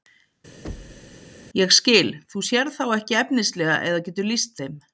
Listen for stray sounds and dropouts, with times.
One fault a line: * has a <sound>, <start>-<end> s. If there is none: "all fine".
* has a thud, 0.6-1.2 s